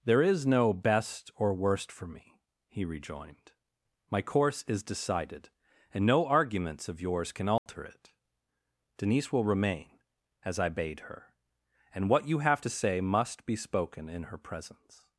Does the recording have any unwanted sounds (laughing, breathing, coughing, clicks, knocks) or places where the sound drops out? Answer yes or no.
yes